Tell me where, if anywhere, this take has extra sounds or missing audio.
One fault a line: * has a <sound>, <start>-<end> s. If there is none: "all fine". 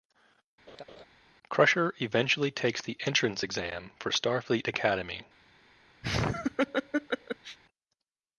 * has a laugh, 0.7-1.1 s
* has a laugh, 6.0-7.6 s